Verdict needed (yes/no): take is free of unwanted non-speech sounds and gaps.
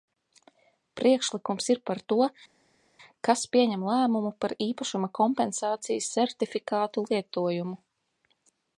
yes